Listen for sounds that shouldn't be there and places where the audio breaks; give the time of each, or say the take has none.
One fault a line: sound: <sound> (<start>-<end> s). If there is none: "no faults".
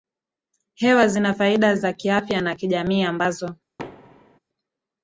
sound: thud (3.8-4.4 s)